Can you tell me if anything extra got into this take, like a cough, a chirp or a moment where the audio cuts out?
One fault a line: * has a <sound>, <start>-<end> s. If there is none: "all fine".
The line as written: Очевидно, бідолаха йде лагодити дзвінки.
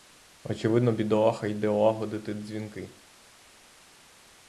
all fine